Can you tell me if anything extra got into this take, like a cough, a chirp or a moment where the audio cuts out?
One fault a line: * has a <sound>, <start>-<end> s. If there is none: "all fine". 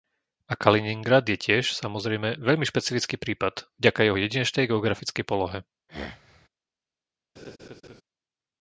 * has a throat clearing, 5.9-6.5 s
* has a laugh, 7.4-8.0 s